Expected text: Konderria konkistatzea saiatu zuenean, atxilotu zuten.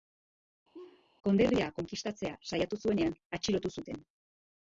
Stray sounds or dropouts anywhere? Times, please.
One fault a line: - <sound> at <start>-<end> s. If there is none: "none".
- laugh at 0.7-1.1 s